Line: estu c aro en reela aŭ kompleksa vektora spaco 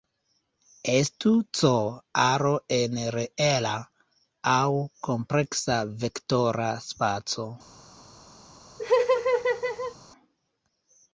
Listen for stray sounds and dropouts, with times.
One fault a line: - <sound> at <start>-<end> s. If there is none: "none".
- laugh at 8.8-10.0 s